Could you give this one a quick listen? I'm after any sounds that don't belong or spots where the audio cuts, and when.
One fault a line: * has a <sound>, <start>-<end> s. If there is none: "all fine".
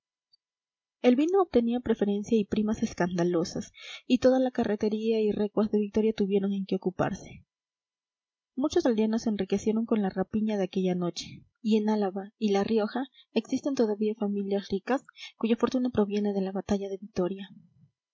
all fine